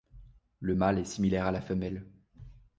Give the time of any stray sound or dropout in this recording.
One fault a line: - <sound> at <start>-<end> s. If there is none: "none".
none